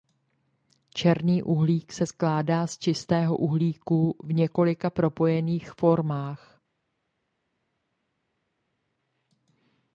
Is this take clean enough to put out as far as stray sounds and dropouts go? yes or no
yes